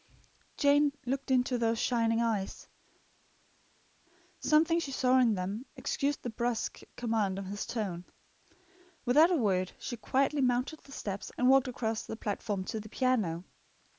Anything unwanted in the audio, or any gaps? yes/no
no